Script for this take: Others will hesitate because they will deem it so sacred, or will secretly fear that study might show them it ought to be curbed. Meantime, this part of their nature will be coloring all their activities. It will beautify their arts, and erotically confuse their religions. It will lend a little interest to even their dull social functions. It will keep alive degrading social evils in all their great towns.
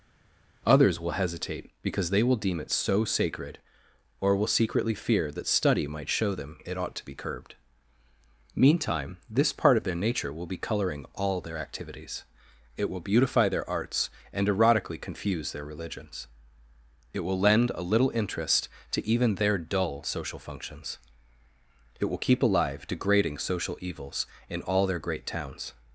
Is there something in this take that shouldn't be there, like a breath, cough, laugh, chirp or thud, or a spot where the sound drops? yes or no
no